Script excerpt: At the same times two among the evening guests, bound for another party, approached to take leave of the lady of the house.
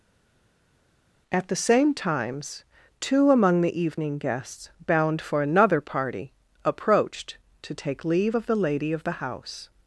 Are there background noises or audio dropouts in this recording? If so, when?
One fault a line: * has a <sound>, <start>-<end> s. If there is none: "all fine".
all fine